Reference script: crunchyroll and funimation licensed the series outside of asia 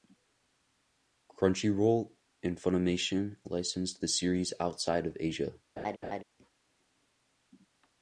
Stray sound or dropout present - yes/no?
yes